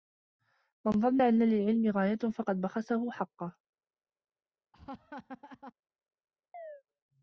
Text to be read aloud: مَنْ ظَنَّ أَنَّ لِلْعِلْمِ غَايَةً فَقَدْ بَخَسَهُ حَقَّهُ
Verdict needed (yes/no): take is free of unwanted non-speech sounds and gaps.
no